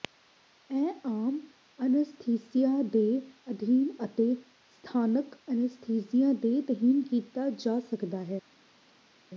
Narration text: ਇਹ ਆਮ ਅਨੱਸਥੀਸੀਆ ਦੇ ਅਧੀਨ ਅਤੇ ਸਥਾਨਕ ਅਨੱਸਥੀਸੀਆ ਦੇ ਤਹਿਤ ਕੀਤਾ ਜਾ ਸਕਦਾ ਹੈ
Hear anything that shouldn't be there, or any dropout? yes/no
no